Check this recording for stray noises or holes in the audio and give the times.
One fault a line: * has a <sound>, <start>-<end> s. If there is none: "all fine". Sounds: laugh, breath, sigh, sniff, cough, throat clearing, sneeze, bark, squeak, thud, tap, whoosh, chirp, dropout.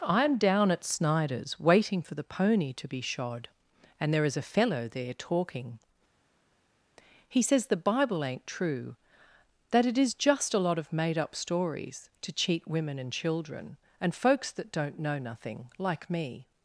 all fine